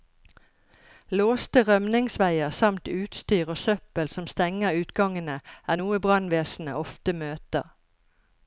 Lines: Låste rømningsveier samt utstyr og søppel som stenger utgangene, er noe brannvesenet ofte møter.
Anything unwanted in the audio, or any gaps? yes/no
no